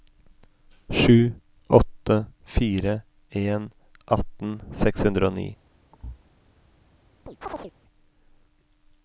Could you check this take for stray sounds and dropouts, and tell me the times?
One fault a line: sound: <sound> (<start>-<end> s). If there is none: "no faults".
sound: thud (5.9-6.2 s)
sound: chirp (7.3-7.7 s)